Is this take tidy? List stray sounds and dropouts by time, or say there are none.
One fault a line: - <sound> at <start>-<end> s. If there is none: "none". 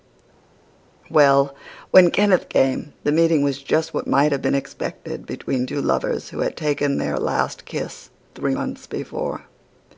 none